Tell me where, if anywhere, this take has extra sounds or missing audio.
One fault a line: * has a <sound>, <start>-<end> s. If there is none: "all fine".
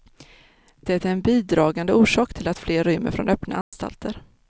* has a dropout, 3.6-3.7 s